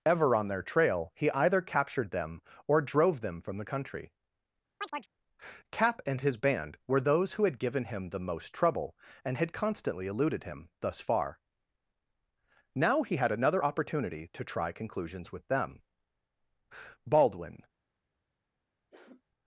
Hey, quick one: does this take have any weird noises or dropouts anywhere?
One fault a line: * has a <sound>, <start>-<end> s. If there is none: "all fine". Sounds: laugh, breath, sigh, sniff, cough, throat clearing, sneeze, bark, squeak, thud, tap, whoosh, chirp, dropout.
* has a chirp, 4.8-5.1 s
* has a sniff, 18.9-19.2 s